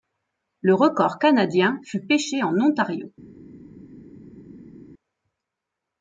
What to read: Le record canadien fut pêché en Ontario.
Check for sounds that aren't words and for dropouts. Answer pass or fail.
pass